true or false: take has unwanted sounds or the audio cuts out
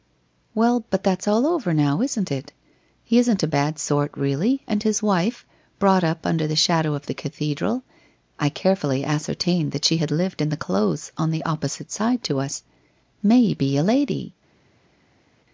false